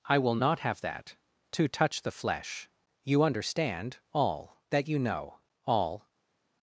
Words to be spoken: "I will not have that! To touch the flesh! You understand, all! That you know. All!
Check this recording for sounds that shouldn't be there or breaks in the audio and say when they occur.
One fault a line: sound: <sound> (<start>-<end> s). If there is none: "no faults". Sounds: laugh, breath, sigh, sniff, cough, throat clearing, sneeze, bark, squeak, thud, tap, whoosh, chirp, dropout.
no faults